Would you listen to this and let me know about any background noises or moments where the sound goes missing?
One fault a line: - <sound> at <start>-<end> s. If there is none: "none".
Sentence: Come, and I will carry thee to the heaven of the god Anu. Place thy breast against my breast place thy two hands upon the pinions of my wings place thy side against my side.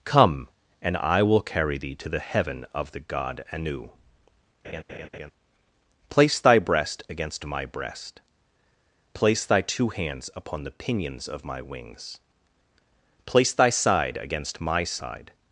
- laugh at 4.6-5.3 s